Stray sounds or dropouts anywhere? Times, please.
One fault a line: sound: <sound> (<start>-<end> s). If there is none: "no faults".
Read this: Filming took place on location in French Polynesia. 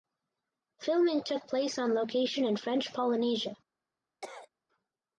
sound: cough (4.2-4.5 s)